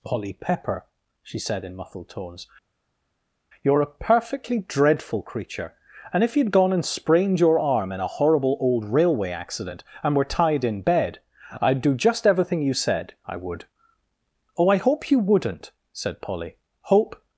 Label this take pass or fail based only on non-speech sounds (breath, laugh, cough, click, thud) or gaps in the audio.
pass